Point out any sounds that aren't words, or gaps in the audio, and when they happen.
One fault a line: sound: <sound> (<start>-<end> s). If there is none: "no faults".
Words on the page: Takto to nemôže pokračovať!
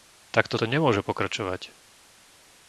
no faults